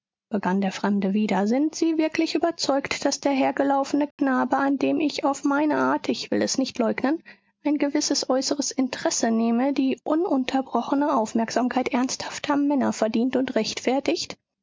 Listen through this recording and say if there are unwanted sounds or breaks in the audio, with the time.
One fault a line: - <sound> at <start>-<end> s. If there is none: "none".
- dropout at 4.1-4.2 s